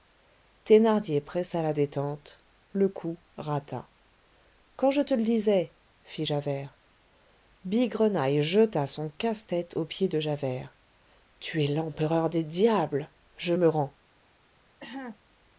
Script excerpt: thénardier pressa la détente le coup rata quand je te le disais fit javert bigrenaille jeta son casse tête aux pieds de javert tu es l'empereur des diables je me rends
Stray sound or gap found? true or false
true